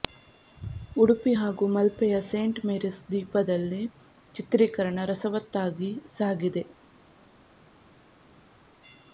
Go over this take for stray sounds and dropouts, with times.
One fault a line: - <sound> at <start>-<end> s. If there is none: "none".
none